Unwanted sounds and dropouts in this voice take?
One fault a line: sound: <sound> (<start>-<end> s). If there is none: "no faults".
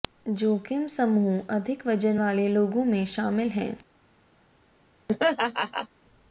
sound: laugh (5.1-5.9 s)